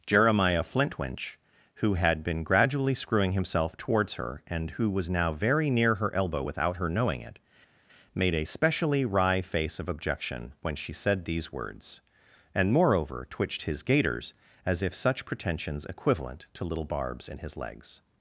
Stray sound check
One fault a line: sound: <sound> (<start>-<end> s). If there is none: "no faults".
no faults